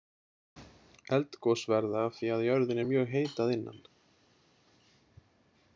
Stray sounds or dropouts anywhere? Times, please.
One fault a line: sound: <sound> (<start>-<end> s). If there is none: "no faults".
no faults